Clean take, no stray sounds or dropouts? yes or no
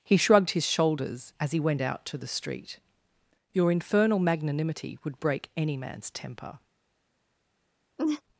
no